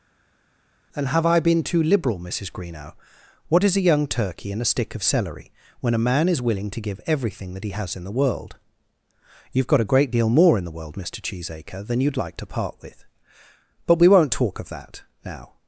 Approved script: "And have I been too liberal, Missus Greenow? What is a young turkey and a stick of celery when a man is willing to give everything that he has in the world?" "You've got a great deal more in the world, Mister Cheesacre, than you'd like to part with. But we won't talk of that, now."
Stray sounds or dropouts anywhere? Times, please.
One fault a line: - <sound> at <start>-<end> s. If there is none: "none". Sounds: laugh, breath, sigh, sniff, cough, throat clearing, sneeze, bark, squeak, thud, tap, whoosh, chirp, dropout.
none